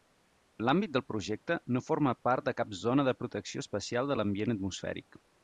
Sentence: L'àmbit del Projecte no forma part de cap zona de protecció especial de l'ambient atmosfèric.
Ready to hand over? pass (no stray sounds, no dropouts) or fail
pass